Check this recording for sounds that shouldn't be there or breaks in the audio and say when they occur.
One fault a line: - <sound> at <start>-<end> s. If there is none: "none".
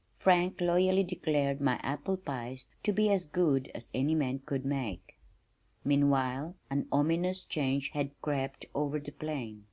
none